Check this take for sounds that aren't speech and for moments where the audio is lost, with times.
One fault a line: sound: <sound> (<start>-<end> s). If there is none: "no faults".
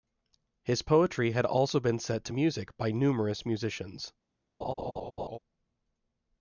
sound: laugh (4.6-5.4 s)